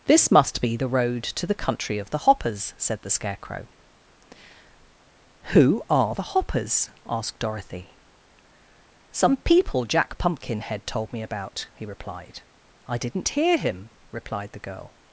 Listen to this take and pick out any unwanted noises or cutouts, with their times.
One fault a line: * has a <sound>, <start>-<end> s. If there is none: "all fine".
all fine